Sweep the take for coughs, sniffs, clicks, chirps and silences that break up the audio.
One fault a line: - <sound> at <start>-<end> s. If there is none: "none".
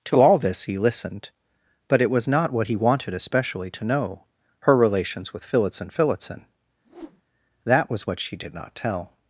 - whoosh at 6.8-7.2 s